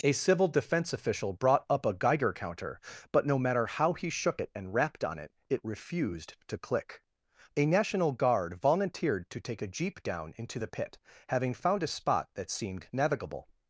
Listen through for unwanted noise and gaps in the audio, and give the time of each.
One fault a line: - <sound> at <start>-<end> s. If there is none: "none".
none